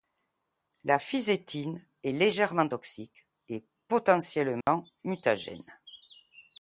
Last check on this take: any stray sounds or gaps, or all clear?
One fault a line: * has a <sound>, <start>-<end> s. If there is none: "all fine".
* has a dropout, 4.6-4.7 s